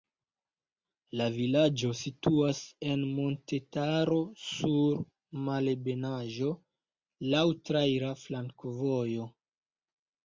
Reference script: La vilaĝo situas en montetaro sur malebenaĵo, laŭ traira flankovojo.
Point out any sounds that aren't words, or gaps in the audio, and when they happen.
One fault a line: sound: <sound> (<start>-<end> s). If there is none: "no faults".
no faults